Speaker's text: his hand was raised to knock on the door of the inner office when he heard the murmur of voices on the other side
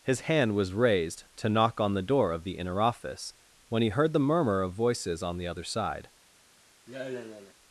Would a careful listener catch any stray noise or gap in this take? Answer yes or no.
yes